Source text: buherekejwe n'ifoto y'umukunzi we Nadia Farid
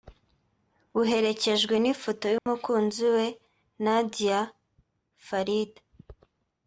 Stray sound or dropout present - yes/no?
yes